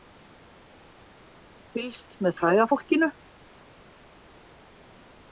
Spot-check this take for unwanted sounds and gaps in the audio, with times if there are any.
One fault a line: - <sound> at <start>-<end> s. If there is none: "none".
none